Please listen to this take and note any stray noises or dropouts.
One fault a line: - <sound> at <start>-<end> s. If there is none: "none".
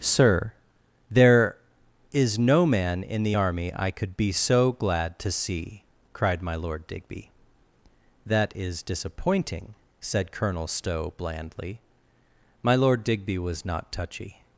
none